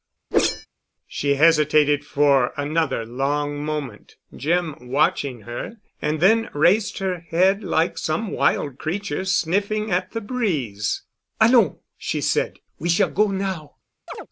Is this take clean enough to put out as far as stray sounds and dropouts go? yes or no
no